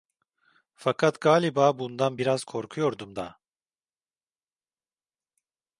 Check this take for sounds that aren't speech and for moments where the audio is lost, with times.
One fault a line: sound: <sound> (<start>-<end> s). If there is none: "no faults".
no faults